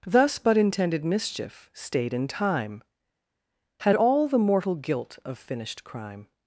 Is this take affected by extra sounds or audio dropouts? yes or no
no